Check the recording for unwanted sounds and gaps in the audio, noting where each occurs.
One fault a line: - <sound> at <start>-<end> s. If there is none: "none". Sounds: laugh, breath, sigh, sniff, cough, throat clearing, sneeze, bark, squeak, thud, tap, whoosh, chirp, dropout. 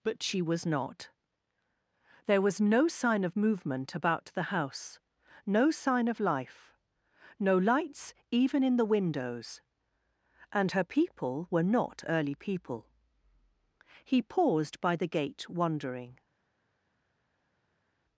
none